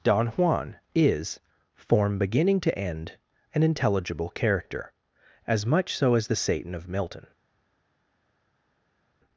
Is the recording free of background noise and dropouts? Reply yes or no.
yes